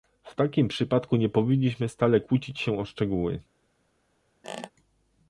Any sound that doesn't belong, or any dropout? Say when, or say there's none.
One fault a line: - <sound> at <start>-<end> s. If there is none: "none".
- squeak at 4.4-4.7 s